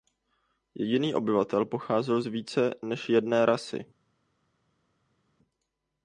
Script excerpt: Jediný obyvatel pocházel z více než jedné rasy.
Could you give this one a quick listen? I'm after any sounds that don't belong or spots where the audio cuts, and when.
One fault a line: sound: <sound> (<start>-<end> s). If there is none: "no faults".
no faults